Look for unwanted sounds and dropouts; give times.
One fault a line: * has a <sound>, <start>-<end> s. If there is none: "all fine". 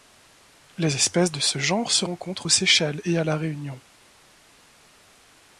all fine